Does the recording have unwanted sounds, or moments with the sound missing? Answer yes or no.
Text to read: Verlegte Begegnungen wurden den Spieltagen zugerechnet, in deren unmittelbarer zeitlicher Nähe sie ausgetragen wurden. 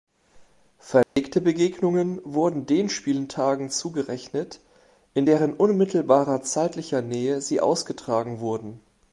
yes